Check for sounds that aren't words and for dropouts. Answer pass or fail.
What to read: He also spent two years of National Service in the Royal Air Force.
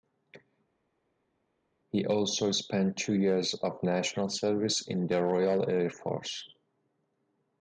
pass